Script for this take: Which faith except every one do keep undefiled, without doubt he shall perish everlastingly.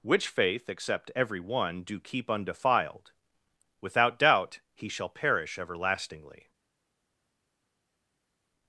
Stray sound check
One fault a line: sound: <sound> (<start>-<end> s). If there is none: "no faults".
no faults